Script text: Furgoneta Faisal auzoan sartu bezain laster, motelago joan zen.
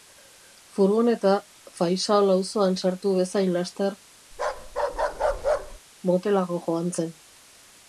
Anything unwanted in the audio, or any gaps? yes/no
yes